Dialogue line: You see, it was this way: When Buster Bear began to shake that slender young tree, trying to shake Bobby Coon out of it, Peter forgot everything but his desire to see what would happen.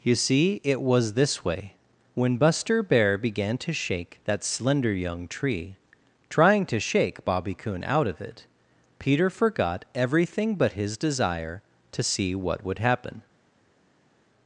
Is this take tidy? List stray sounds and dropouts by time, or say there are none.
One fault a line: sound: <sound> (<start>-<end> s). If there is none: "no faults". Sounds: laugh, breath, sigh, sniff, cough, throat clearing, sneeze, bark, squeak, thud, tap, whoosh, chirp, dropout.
no faults